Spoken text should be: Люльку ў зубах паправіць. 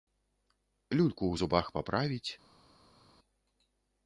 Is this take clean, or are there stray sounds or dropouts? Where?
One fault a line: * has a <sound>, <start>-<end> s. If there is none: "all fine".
all fine